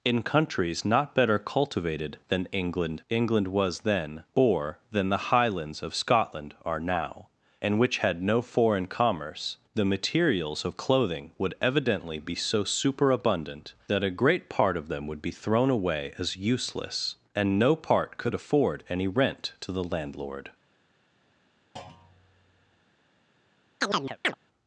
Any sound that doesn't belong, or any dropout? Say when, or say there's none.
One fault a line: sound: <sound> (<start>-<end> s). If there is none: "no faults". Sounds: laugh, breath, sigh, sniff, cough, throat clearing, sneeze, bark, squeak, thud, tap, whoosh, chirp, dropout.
sound: thud (21.8-22.9 s)
sound: chirp (23.8-24.3 s)